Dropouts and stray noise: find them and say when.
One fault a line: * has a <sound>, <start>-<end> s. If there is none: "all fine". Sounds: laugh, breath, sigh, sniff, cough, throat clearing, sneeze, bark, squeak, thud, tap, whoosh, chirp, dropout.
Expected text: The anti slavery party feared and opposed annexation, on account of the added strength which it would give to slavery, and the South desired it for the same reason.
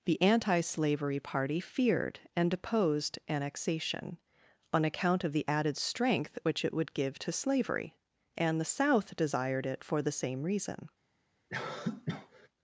* has a cough, 11.5-12.5 s